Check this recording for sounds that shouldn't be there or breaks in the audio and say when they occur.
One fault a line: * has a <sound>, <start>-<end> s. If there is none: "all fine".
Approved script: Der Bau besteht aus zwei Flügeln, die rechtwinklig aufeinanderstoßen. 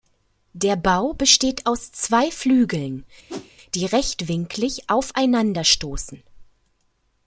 * has a whoosh, 3.3-3.5 s